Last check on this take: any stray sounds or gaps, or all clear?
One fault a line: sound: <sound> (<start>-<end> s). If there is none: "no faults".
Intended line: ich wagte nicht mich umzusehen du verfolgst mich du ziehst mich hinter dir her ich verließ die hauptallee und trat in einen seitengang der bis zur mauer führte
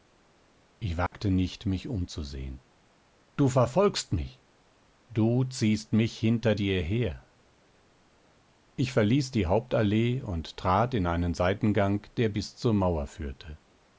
sound: dropout (1.1-1.1 s)